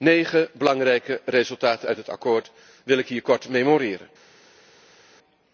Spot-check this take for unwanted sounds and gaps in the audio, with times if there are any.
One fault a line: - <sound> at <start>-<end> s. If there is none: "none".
none